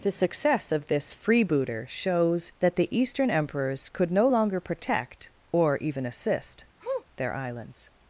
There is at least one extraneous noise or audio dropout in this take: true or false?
true